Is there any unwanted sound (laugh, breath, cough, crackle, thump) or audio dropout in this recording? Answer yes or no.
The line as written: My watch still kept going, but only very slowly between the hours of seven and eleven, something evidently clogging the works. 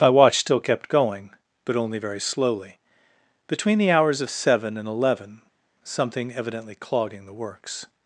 no